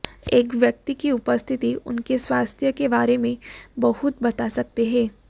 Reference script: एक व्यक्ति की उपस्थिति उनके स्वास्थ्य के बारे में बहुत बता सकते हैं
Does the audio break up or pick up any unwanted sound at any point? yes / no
no